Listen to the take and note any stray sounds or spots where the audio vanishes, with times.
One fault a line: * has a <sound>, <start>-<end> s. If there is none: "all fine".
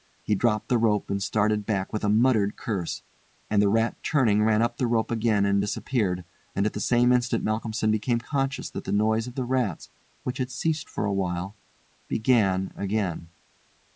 all fine